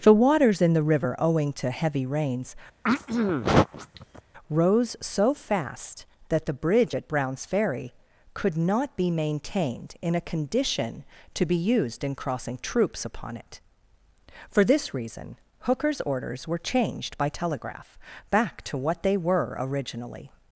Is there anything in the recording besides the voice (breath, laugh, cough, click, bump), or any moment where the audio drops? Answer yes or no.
yes